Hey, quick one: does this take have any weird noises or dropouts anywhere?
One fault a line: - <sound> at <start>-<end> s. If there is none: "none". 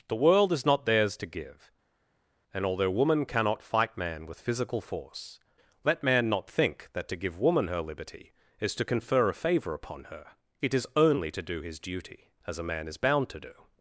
none